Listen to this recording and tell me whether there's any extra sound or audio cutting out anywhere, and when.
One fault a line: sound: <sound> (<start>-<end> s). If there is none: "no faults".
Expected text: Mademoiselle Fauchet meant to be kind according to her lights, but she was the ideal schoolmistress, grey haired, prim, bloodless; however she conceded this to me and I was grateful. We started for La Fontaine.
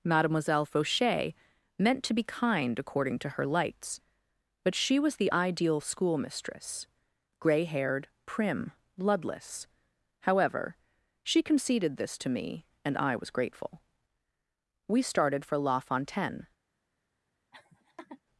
sound: laugh (17.5-18.2 s)